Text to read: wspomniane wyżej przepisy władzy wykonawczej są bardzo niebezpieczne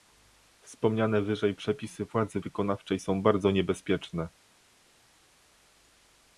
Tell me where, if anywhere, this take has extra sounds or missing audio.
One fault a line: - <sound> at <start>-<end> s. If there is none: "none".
none